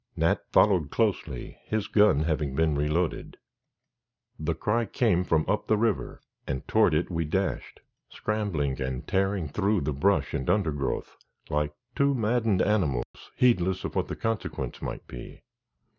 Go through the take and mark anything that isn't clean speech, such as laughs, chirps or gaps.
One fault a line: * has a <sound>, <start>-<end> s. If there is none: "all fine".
* has a dropout, 13.0-13.1 s